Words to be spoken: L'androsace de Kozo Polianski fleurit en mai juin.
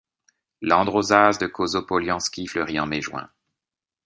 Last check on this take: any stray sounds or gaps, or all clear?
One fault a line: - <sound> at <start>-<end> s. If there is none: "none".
none